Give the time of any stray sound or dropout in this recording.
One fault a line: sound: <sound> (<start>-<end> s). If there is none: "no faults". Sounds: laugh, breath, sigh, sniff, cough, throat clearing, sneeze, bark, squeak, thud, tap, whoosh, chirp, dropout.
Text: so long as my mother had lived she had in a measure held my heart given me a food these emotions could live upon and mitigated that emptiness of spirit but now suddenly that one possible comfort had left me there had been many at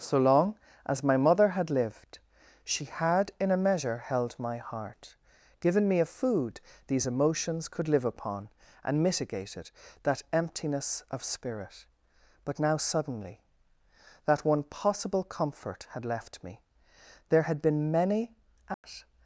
sound: dropout (18.7-18.8 s)